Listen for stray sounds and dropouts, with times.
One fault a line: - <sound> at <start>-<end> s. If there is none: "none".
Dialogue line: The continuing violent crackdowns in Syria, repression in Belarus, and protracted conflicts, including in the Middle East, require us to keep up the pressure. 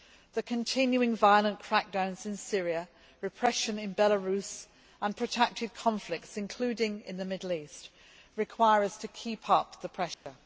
- dropout at 10.1-10.3 s